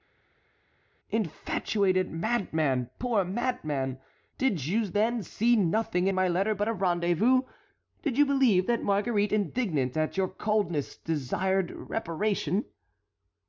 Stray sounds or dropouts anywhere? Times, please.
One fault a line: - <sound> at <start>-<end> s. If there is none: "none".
none